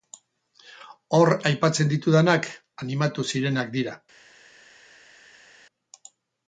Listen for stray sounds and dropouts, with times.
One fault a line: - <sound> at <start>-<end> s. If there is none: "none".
none